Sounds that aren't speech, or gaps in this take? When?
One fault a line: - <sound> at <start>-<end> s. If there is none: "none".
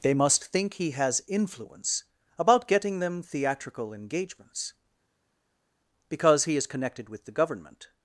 none